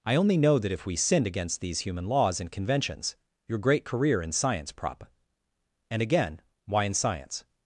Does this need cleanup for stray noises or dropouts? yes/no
no